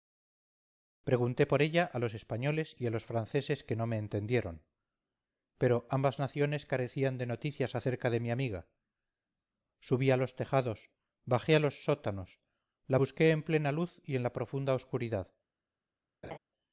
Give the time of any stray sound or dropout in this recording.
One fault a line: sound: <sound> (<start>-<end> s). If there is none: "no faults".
sound: laugh (16.2-16.4 s)